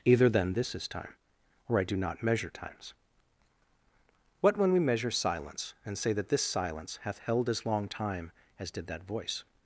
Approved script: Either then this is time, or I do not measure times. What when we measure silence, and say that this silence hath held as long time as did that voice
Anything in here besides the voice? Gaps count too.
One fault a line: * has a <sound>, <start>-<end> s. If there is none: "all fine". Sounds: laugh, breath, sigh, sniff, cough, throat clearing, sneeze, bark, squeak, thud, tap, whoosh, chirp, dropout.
all fine